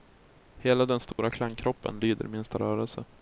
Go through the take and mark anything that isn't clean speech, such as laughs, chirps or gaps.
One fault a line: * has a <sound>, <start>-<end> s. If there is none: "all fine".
* has a dropout, 1.1-1.2 s